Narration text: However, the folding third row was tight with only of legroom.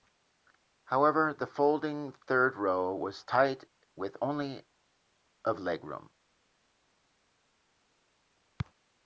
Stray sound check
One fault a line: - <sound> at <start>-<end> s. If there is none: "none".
none